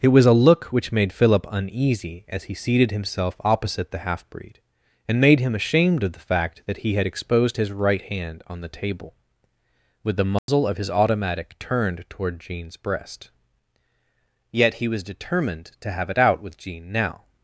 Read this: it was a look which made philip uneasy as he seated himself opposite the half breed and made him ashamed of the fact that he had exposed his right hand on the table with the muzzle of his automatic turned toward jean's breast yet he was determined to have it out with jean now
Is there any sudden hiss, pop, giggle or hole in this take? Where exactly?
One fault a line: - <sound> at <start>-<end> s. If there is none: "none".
- dropout at 10.4-10.5 s